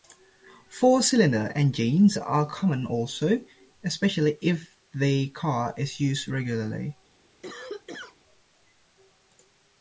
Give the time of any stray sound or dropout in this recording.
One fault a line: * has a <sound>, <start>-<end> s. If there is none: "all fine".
* has a cough, 7.4-8.2 s